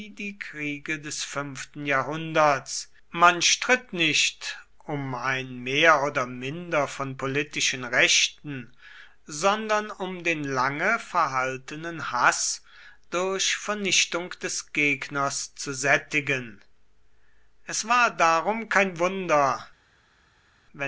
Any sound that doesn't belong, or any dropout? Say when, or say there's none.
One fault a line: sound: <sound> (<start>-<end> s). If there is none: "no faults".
no faults